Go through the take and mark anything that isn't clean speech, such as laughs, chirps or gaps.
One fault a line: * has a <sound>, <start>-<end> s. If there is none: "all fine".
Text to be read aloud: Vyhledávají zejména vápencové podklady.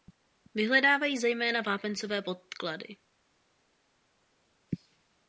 all fine